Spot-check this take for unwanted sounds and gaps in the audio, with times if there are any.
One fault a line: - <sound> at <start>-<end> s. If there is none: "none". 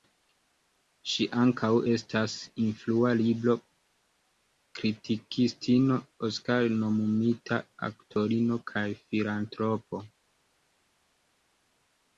none